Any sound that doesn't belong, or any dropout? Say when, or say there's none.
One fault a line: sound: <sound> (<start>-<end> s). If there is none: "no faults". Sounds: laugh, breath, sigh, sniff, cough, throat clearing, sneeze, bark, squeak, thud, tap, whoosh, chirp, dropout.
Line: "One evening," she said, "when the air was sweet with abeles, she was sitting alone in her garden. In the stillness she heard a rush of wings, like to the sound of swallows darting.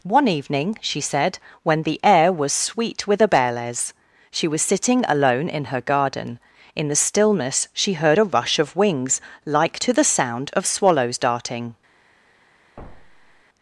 sound: thud (12.8-13.4 s)